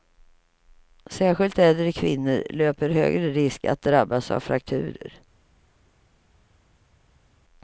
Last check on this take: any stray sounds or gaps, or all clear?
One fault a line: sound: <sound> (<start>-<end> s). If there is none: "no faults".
no faults